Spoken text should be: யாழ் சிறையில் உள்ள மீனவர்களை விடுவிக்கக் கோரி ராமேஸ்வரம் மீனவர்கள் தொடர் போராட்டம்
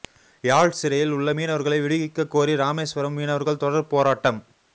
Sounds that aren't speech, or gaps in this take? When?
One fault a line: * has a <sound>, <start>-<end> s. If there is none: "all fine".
all fine